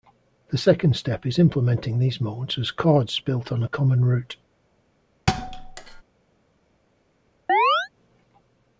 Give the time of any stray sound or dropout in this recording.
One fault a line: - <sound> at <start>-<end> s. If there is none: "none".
- thud at 5.3-6.0 s
- chirp at 7.5-7.9 s